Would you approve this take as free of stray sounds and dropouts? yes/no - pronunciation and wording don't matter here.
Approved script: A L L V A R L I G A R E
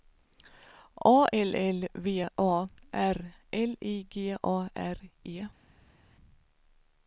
yes